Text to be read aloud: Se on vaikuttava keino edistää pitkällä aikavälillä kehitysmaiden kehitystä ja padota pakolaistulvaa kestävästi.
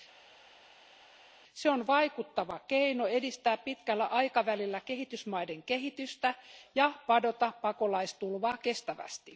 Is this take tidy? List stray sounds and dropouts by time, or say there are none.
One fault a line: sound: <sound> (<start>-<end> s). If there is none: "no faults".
no faults